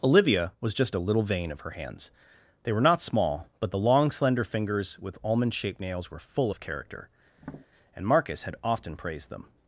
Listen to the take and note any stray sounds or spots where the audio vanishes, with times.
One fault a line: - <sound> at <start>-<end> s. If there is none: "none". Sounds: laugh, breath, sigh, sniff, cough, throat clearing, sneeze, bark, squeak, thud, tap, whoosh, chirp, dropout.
- tap at 7.4-7.7 s